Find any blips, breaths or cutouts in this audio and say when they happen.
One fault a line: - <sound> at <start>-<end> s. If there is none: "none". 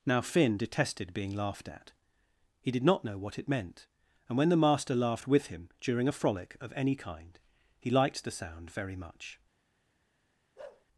- bark at 10.6-10.9 s